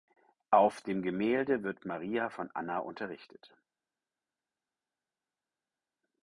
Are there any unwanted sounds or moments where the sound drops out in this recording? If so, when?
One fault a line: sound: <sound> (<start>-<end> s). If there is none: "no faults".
no faults